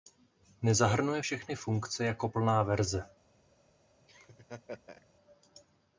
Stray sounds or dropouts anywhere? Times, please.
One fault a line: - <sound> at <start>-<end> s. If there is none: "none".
- laugh at 4.1-5.1 s